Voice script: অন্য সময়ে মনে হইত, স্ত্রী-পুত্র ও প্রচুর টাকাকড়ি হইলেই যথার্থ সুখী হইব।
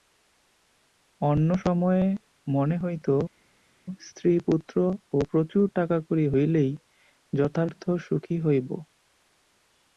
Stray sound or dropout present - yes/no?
no